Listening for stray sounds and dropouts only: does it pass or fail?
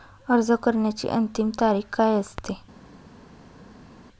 pass